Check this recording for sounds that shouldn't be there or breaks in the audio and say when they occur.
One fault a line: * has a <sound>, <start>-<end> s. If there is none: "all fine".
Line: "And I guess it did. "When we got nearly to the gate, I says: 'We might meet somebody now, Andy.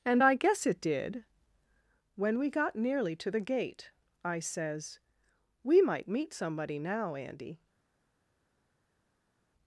all fine